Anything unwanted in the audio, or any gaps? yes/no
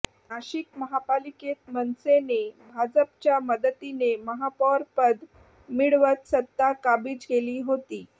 no